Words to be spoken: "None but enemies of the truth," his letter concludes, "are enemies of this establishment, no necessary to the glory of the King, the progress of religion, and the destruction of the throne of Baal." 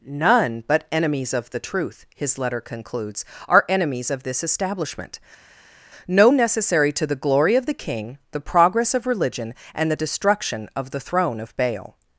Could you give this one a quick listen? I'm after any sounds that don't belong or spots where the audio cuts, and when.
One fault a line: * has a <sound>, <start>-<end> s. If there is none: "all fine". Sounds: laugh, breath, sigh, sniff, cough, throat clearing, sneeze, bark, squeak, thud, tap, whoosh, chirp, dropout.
all fine